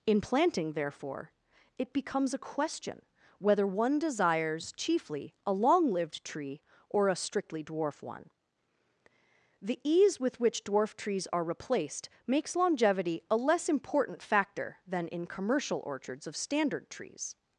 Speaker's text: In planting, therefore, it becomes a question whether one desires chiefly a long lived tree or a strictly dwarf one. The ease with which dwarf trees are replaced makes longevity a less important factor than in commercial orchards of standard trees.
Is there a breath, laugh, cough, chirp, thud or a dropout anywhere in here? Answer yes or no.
no